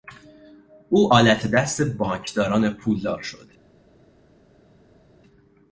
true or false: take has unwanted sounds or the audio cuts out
false